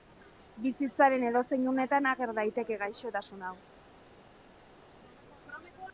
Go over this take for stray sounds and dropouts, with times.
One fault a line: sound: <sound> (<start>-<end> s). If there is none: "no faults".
no faults